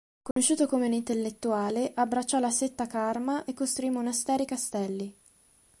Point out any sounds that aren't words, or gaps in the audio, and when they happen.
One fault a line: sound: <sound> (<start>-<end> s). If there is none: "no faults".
sound: dropout (0.3-0.4 s)